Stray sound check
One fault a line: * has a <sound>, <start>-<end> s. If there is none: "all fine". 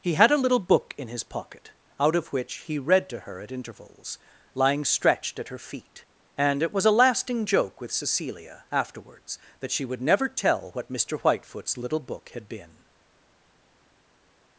all fine